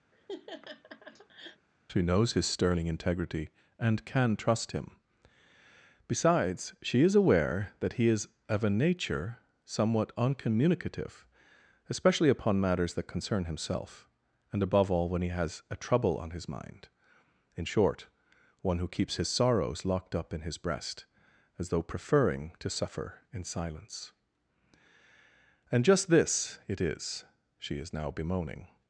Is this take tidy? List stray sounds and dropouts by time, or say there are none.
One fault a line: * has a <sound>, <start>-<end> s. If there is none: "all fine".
* has a laugh, 0.1-1.7 s